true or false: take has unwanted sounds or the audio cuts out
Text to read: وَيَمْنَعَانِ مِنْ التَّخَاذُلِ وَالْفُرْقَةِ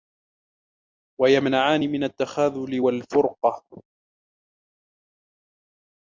false